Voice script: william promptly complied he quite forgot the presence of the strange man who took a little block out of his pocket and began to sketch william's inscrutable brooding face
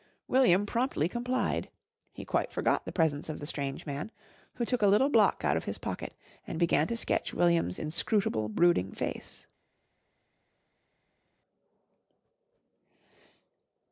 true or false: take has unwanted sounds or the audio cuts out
false